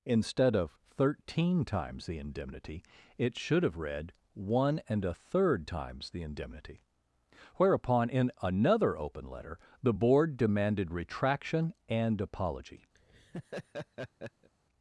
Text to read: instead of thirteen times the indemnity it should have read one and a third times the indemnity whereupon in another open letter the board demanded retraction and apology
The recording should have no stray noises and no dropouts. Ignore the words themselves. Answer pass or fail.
fail